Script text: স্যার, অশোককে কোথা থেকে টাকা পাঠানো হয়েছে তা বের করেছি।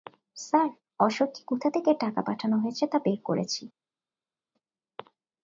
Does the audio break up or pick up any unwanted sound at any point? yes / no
no